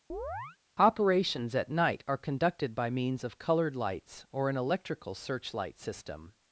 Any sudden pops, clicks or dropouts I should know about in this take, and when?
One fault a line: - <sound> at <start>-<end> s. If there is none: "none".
- chirp at 0.1-0.6 s